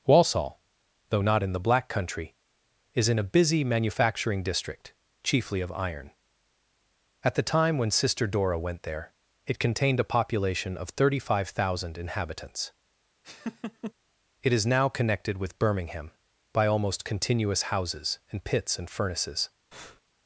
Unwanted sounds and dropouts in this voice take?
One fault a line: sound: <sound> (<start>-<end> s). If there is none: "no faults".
sound: laugh (13.2-13.9 s)
sound: breath (19.7-20.0 s)